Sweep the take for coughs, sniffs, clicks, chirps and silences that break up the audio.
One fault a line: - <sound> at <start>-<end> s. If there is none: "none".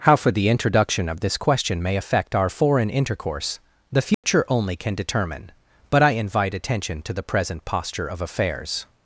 - dropout at 4.1-4.2 s